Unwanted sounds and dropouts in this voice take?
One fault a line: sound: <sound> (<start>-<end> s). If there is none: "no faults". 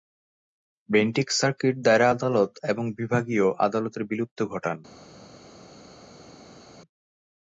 no faults